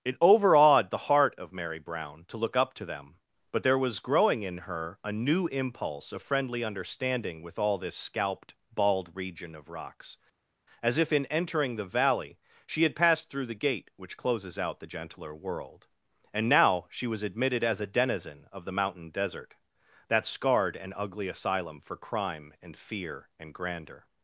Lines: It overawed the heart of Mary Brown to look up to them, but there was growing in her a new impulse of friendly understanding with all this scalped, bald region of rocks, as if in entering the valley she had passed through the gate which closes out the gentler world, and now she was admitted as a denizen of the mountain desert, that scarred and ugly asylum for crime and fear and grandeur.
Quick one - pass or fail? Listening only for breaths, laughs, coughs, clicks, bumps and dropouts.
pass